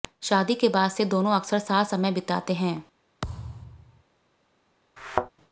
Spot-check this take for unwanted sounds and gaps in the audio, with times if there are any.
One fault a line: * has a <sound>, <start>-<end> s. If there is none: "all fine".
* has a thud, 3.2-4.0 s
* has a thud, 5.0-5.3 s